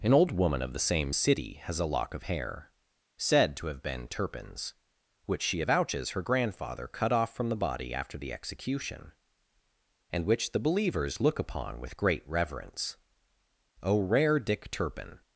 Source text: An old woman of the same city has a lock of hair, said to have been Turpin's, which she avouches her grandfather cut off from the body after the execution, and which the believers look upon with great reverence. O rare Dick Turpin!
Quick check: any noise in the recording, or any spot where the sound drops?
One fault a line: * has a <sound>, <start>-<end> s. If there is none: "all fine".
all fine